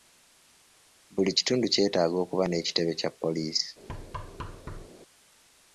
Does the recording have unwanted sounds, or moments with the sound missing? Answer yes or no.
yes